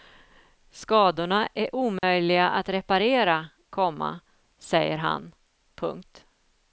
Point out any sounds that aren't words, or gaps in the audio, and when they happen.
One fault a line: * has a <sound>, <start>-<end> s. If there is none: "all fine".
* has a dropout, 2.0-2.0 s